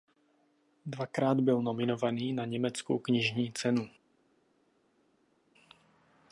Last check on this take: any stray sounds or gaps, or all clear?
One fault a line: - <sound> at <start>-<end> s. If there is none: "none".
none